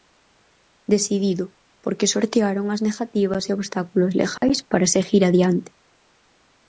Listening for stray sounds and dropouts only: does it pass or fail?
fail